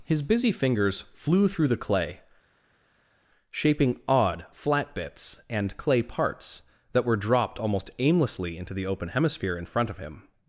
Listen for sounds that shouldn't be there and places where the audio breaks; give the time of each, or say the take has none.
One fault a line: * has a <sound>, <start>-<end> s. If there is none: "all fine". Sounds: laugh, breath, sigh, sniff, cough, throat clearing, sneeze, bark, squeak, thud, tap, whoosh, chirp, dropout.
all fine